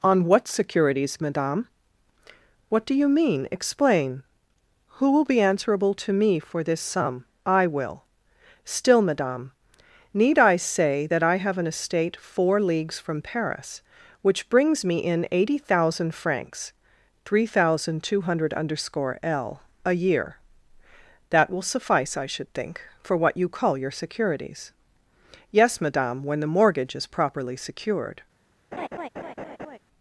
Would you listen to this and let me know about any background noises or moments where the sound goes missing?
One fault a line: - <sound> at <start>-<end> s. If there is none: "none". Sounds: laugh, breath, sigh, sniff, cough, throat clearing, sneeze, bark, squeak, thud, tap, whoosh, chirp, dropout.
- laugh at 28.7-29.8 s